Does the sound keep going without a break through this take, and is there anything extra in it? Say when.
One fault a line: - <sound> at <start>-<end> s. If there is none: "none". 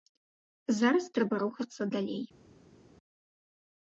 none